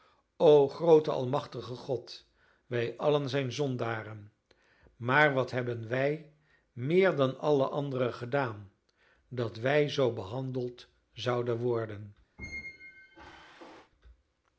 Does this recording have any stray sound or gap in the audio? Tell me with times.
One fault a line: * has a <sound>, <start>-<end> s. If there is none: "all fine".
* has a squeak, 12.4-13.9 s